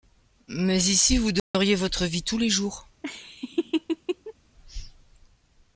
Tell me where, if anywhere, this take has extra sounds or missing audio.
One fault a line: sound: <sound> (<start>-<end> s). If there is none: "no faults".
sound: dropout (1.4-1.5 s)
sound: laugh (3.0-4.3 s)